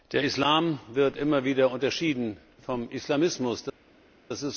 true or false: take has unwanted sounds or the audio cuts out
false